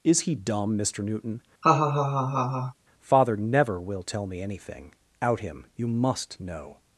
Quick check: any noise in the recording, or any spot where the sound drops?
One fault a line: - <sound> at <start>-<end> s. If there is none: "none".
- laugh at 1.6-2.7 s